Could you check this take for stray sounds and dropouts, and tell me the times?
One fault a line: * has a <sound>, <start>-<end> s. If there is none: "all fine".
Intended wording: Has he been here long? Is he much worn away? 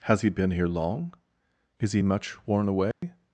* has a dropout, 2.9-3.0 s